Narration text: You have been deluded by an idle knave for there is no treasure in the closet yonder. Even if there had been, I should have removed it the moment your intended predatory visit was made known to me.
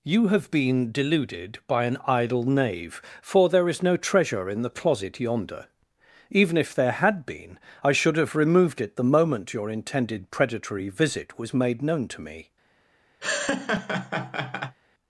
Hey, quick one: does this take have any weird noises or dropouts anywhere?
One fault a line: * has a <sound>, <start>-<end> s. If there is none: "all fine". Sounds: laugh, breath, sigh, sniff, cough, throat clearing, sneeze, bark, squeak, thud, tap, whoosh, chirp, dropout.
* has a laugh, 13.2-14.8 s